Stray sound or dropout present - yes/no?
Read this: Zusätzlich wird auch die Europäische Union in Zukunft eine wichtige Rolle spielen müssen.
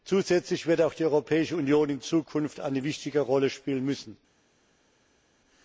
no